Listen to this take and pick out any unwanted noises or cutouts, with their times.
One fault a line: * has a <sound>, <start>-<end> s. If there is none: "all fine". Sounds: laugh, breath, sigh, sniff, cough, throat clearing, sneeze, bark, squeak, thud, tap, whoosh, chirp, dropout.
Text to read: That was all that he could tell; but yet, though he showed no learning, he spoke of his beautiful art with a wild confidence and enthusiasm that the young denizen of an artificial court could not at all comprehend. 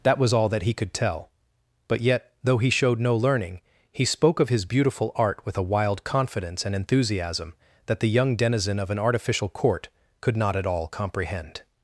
all fine